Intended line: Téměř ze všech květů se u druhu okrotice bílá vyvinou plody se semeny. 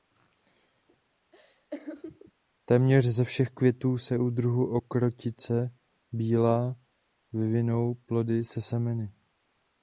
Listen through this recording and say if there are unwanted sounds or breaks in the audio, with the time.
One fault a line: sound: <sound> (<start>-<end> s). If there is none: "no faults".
sound: laugh (1.3-2.3 s)